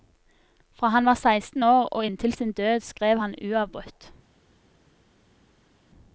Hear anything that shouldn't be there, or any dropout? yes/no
no